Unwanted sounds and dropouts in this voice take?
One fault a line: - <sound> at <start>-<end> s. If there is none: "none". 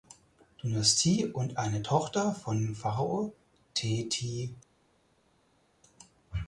none